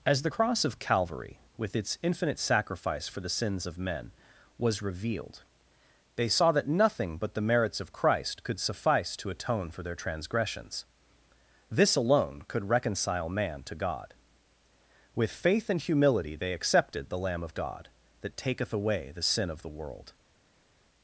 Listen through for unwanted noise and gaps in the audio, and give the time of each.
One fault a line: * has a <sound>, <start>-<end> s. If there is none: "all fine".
all fine